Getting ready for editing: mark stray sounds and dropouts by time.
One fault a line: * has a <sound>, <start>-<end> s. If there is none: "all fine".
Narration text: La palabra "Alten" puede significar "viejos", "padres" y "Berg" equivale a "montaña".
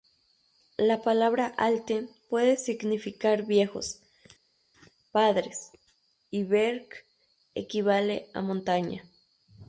all fine